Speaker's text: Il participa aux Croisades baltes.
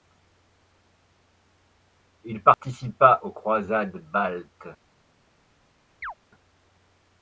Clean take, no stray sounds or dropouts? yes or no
no